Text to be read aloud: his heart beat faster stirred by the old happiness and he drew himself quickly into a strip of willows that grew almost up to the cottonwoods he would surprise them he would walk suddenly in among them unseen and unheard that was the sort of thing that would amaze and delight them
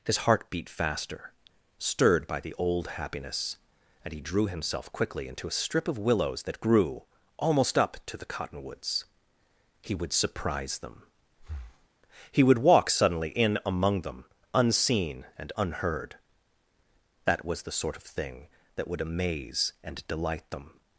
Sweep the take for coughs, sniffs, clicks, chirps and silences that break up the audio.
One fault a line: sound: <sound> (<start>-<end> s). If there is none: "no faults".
sound: breath (11.4-11.9 s)